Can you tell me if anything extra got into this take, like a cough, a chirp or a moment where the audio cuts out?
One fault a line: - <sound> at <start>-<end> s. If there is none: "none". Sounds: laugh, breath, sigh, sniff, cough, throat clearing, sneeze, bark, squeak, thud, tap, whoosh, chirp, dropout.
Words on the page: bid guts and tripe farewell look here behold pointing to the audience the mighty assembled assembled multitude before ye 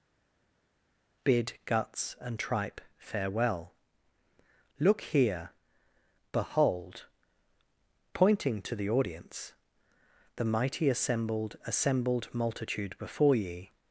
none